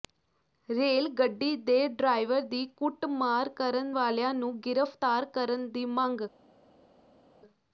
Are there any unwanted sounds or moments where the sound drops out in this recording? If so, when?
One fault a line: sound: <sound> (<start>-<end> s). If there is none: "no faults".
no faults